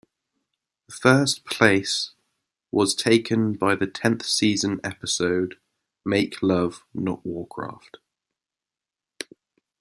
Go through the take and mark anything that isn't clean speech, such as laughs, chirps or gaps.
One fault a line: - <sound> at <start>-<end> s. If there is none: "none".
none